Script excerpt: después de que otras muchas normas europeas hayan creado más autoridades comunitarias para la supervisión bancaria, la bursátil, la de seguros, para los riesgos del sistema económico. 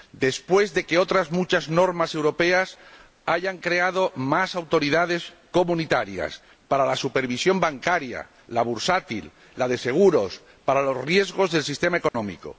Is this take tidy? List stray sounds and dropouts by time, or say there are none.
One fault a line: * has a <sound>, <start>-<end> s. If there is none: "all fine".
* has a dropout, 12.1-12.1 s